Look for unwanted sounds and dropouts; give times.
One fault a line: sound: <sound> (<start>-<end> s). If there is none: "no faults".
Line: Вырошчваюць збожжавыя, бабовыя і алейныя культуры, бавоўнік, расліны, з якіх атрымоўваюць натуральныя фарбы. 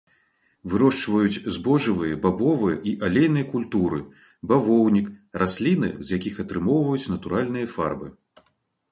no faults